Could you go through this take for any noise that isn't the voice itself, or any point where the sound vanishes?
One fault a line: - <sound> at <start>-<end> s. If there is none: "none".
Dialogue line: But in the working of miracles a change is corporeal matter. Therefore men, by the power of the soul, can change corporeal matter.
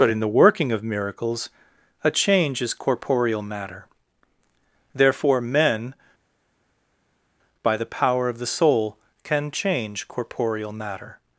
none